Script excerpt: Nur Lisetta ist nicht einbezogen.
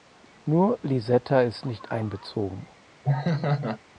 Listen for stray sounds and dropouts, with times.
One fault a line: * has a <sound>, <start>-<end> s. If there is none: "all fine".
* has a laugh, 3.0-3.8 s